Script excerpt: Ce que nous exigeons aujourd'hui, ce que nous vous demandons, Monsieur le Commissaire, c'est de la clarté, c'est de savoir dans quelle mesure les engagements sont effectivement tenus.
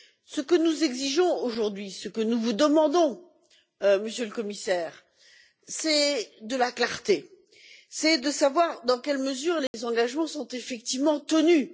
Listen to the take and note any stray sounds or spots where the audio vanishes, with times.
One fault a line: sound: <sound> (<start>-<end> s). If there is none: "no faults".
sound: dropout (9.7-9.7 s)